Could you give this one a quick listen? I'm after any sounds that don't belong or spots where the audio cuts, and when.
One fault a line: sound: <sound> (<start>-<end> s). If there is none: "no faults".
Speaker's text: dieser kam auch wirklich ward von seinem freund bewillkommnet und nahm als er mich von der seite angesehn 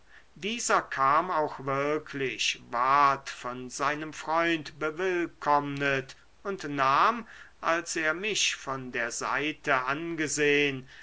no faults